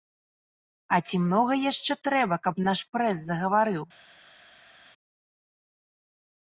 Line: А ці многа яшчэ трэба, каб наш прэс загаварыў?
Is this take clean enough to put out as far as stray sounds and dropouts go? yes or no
yes